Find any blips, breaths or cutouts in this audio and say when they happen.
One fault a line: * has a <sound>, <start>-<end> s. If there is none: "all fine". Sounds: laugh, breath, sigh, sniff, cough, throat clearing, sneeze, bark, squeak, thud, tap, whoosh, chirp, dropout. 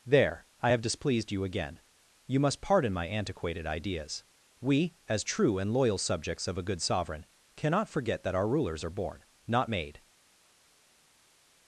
all fine